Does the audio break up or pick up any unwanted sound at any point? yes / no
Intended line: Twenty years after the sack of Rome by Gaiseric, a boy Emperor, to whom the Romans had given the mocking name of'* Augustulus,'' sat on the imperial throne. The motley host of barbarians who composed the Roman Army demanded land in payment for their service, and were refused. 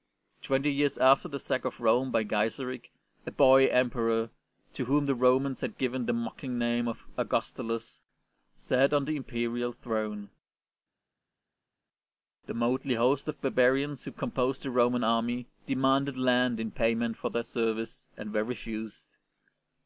no